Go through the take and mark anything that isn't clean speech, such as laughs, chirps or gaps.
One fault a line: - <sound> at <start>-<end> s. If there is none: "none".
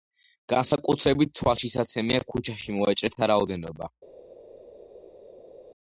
none